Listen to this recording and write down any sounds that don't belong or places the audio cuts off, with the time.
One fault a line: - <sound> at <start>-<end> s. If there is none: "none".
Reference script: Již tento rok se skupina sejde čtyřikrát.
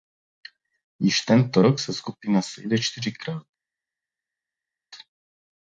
none